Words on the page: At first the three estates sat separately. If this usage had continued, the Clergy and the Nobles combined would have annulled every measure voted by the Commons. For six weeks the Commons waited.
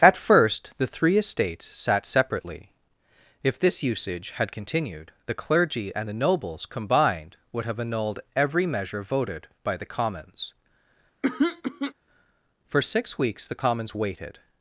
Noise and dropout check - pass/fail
fail